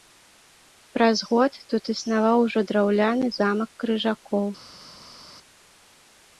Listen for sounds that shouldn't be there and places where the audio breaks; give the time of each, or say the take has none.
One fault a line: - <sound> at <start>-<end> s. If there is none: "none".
none